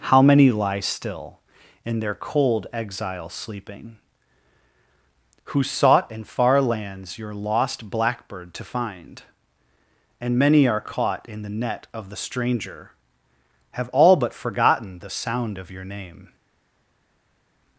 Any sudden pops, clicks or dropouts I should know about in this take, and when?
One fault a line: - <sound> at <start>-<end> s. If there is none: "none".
none